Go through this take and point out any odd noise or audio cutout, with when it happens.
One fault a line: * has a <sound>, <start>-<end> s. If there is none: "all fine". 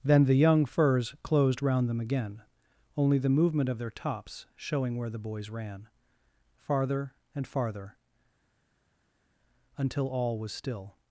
all fine